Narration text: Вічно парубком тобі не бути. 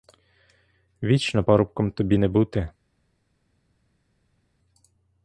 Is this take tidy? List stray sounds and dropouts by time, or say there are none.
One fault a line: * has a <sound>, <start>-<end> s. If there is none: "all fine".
all fine